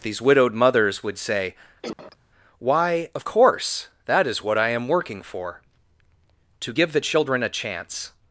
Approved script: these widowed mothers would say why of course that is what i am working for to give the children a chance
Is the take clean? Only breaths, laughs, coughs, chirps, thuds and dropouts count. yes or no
no